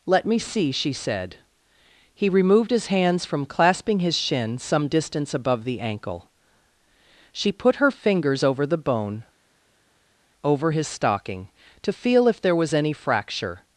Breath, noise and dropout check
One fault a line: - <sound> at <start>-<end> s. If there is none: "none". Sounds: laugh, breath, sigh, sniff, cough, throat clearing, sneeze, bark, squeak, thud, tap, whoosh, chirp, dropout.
none